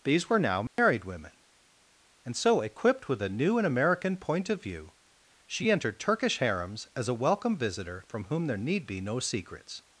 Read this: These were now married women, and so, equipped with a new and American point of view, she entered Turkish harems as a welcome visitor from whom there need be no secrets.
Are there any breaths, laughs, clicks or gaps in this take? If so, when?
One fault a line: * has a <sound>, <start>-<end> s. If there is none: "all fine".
* has a dropout, 0.7-0.8 s